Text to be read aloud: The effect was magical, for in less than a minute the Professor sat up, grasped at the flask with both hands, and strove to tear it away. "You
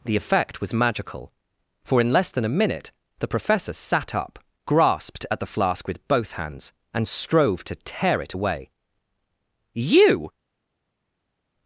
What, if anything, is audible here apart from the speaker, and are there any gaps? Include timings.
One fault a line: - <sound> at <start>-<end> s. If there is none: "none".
none